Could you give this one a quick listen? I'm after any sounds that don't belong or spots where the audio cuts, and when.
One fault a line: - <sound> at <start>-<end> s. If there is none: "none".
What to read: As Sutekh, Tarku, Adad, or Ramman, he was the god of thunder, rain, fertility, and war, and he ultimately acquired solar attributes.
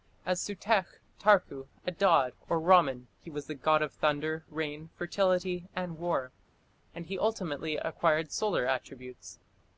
none